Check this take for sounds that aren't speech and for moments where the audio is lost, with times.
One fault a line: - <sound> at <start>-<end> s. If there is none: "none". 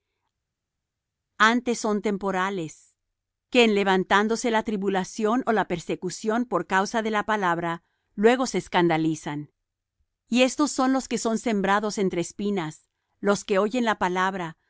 none